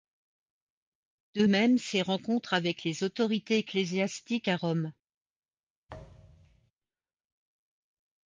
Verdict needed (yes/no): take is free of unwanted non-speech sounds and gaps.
no